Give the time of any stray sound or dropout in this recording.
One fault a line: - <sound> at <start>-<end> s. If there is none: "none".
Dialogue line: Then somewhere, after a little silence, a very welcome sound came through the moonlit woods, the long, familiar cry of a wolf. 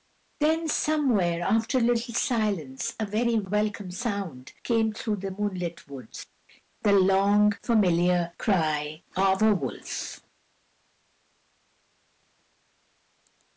none